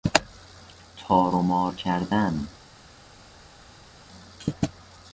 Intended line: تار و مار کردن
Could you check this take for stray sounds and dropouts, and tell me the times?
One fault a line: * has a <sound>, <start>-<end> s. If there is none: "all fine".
all fine